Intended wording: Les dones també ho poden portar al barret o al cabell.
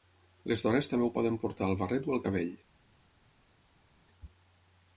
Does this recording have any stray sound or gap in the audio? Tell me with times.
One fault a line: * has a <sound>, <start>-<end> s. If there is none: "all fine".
all fine